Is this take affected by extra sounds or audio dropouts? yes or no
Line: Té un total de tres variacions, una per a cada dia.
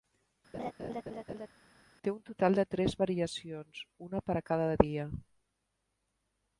yes